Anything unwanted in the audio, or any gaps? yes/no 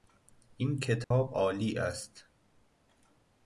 yes